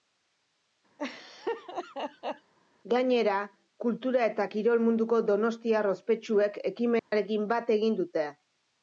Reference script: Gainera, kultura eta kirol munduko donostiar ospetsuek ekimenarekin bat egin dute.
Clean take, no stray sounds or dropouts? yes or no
no